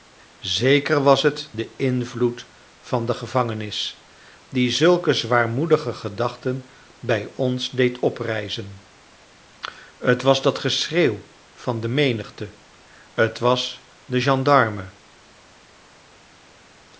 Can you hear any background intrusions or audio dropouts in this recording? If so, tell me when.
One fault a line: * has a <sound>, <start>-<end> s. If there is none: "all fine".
all fine